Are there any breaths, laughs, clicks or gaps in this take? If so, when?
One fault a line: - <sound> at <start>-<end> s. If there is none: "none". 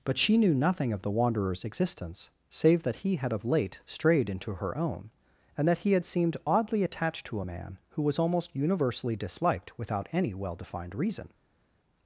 none